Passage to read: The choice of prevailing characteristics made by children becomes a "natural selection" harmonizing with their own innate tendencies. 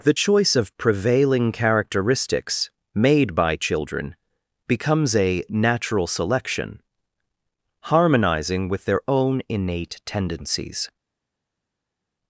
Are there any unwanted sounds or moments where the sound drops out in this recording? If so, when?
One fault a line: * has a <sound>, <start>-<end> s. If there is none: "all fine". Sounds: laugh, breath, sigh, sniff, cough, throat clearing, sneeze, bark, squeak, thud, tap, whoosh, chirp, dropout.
all fine